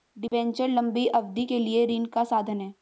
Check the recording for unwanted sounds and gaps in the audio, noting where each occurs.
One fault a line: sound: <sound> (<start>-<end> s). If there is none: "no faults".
sound: dropout (0.3-0.3 s)